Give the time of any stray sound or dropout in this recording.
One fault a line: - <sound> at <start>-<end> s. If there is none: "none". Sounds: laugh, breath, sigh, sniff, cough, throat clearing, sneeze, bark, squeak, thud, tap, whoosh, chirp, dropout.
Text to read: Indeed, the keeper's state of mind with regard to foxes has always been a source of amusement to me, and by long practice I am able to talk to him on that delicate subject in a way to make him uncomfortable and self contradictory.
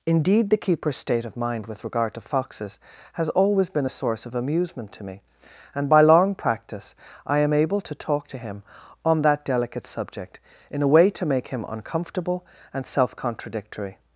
none